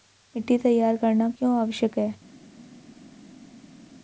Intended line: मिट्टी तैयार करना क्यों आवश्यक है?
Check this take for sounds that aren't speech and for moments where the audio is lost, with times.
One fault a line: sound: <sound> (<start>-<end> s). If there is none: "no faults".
no faults